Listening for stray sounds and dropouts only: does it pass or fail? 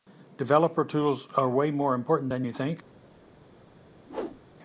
fail